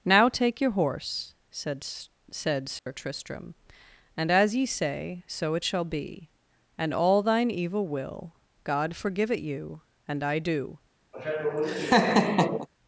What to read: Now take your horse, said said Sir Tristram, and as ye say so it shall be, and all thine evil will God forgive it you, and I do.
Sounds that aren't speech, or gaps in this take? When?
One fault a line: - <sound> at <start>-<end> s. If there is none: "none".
- dropout at 2.8-2.9 s
- laugh at 11.1-12.7 s